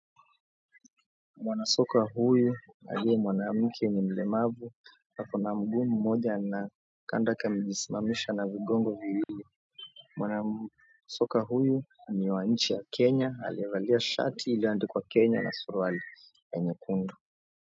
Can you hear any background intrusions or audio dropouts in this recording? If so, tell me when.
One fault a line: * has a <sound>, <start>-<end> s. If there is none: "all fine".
* has a dropout, 9.2-9.3 s